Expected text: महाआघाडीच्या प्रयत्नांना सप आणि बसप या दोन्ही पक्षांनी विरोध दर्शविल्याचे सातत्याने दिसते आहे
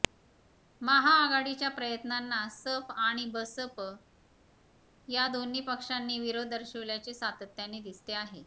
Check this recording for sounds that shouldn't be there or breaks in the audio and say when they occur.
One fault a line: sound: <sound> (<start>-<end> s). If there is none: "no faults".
no faults